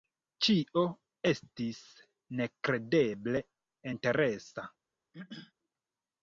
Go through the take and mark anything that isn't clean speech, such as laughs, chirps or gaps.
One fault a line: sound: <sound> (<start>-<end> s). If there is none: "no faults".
sound: throat clearing (5.1-5.5 s)